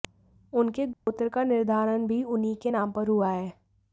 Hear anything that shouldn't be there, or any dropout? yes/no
yes